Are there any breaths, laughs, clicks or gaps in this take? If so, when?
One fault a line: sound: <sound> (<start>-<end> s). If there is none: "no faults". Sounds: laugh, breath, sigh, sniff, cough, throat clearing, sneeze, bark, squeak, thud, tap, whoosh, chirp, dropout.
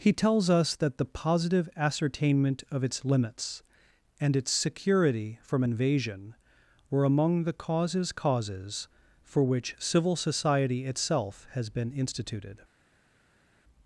no faults